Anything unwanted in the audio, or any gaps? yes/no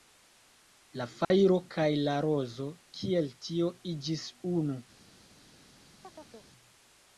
yes